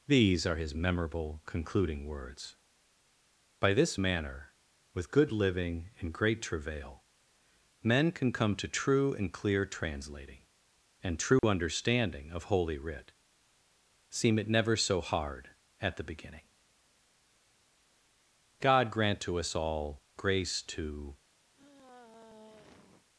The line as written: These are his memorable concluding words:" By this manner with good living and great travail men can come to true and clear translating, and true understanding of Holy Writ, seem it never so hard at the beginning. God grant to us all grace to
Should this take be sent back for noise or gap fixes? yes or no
yes